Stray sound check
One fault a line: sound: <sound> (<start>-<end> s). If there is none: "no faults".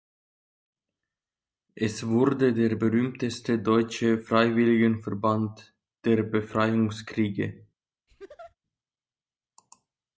sound: laugh (8.1-8.6 s)